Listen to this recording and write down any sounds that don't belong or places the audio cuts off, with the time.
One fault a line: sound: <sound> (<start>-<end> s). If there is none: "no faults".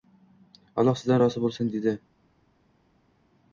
no faults